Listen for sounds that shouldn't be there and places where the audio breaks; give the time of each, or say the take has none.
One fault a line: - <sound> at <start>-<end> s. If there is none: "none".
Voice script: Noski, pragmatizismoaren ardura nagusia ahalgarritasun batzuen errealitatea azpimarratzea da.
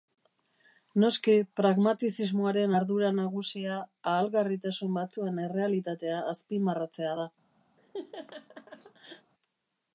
- laugh at 7.8-9.3 s